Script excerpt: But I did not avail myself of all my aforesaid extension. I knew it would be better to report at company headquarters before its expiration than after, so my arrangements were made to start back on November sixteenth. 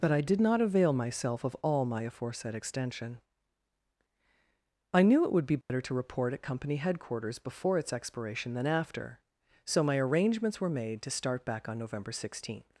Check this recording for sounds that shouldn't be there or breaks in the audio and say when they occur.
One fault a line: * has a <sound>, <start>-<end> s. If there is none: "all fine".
* has a dropout, 5.6-5.7 s